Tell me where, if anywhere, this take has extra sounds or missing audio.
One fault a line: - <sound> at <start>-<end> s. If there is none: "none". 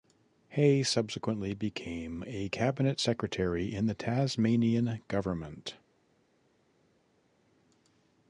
none